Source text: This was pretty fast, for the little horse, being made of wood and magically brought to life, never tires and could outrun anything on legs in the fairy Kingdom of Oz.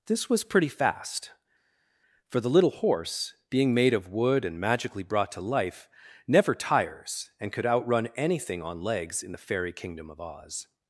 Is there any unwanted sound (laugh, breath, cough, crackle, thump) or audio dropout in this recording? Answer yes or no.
no